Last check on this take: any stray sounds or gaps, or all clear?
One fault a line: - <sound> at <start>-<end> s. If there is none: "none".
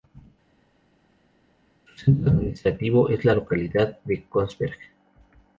none